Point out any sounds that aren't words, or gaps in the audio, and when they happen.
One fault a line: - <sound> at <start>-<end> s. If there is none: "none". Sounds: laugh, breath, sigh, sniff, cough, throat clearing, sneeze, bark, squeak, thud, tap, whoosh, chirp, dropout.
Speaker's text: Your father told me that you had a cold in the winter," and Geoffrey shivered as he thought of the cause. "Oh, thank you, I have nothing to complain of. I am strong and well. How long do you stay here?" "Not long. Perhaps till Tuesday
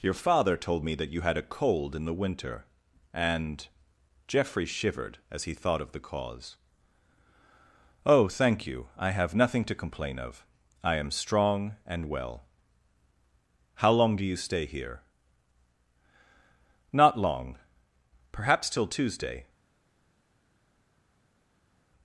none